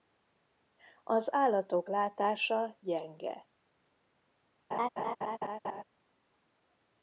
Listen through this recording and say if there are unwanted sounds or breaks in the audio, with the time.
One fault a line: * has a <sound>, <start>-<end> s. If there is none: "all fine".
* has a laugh, 4.7-5.8 s